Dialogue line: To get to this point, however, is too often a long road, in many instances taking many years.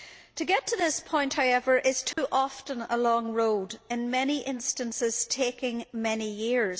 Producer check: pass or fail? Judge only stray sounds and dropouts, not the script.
fail